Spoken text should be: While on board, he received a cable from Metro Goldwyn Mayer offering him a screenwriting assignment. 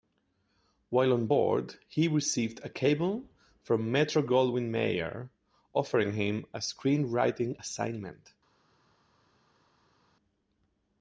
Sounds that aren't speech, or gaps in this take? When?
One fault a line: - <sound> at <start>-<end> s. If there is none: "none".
none